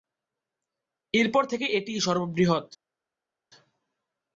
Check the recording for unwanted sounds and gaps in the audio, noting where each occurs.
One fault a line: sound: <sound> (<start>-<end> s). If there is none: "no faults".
no faults